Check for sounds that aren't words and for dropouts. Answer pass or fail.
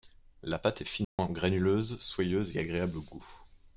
fail